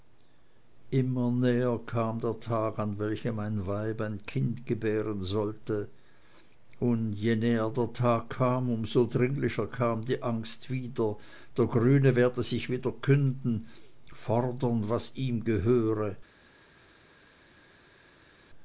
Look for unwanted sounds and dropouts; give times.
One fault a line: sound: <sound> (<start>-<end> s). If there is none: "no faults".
no faults